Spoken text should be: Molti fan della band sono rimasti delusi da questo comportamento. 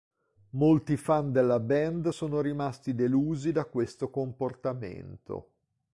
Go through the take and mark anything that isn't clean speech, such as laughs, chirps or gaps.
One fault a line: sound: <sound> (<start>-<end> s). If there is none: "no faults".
no faults